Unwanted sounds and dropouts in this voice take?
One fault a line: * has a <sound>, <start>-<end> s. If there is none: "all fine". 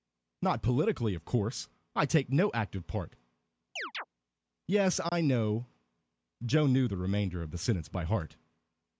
* has a chirp, 3.8-4.0 s
* has a dropout, 5.1-5.1 s